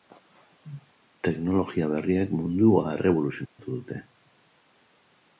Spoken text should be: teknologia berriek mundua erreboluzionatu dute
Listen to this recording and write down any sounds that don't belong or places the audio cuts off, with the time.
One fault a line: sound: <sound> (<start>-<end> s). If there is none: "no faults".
sound: dropout (3.5-3.6 s)